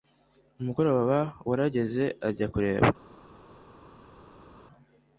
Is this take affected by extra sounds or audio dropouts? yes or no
no